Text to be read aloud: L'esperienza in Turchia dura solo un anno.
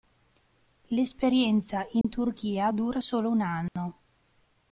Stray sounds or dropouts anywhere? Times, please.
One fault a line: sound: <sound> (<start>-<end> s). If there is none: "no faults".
sound: dropout (2.0-2.0 s)
sound: dropout (3.7-3.8 s)